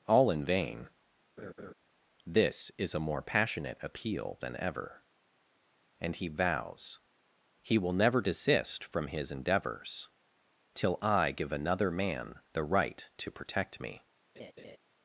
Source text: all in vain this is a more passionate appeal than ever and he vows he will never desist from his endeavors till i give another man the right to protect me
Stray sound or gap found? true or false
true